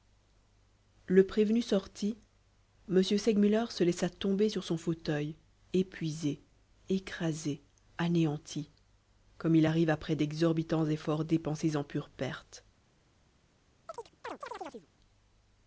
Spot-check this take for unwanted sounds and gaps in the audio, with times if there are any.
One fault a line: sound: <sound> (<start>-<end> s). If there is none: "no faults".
sound: chirp (13.9-14.9 s)